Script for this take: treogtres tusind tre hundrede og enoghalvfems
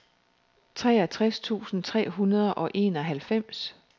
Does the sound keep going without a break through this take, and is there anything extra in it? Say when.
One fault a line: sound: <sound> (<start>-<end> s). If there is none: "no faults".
no faults